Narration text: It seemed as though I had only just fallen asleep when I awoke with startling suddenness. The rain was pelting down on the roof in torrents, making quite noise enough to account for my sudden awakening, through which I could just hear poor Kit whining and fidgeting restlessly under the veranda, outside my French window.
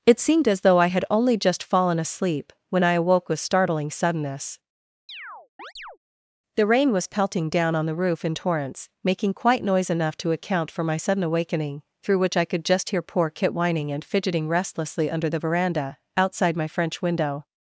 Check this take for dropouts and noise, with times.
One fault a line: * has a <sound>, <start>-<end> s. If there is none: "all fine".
* has a chirp, 5.1-6.0 s